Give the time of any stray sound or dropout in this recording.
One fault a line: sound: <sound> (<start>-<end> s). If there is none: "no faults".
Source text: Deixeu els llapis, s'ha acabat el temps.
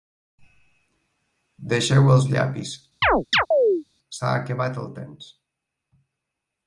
sound: chirp (3.0-3.8 s)